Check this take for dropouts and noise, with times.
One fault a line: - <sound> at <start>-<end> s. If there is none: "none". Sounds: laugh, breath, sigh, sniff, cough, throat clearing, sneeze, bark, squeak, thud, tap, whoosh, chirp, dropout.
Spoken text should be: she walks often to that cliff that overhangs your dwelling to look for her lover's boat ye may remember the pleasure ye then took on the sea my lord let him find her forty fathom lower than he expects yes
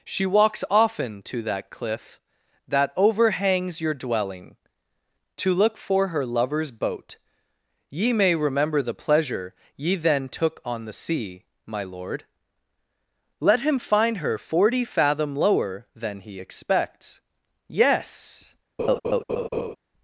- laugh at 18.8-19.8 s